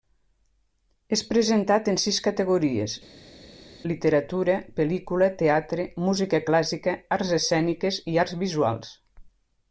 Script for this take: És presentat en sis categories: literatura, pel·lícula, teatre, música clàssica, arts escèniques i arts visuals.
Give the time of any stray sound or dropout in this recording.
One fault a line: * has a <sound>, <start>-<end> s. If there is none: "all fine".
all fine